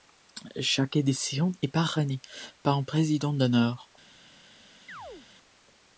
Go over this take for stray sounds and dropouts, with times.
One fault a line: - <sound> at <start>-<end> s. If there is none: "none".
- chirp at 4.9-5.3 s